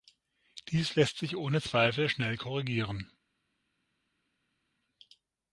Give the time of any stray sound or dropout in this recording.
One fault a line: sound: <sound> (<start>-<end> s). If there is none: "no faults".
no faults